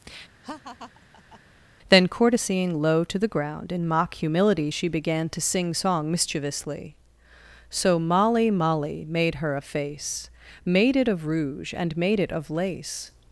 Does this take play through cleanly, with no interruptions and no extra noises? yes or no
no